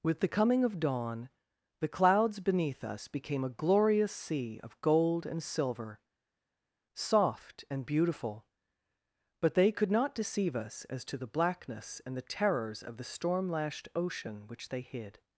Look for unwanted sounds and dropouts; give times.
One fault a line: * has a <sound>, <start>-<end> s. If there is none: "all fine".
all fine